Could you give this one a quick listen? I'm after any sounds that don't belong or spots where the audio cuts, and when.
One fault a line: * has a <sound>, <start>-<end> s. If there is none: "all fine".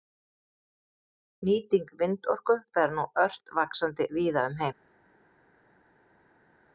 all fine